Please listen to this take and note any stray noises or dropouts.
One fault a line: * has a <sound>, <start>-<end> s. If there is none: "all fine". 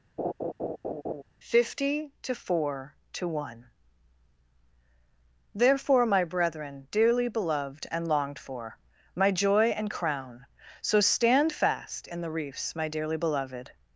* has a laugh, 0.2-1.2 s